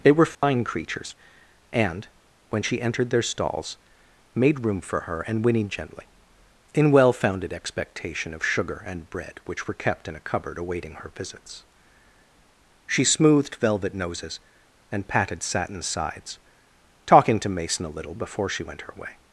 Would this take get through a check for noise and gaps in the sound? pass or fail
fail